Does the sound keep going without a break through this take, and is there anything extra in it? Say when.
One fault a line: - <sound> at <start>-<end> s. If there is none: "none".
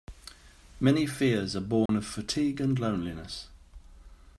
- dropout at 1.9-1.9 s